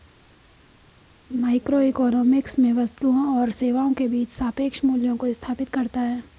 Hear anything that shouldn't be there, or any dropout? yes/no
no